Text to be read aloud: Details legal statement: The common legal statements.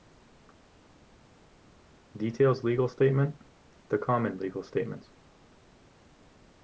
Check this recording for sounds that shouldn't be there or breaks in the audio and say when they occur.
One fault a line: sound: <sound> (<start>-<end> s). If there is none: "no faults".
no faults